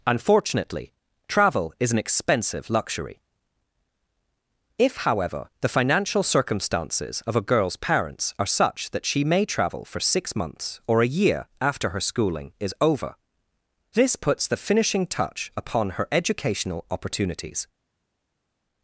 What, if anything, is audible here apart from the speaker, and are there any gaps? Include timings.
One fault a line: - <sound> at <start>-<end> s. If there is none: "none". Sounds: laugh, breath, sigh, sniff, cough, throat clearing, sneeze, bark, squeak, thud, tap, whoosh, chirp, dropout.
none